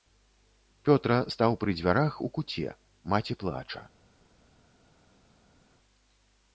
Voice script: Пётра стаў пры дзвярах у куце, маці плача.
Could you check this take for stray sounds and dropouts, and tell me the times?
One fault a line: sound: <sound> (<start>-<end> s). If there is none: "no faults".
no faults